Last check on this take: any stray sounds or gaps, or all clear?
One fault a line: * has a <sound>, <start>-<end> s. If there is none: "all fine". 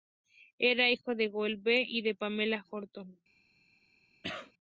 * has a cough, 4.2-4.5 s